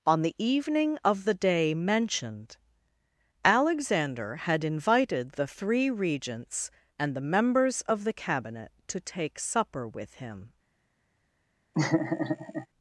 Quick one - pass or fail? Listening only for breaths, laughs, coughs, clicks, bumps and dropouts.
fail